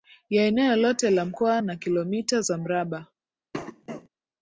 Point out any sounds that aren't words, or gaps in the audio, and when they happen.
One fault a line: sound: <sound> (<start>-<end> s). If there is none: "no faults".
sound: cough (3.5-4.1 s)